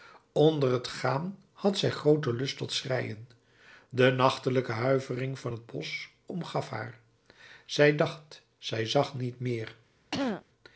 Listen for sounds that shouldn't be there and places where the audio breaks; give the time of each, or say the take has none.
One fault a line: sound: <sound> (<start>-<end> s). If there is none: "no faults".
sound: throat clearing (10.1-10.4 s)